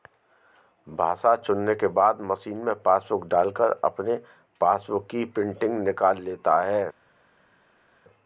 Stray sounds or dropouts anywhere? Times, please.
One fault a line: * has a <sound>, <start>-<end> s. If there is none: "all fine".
all fine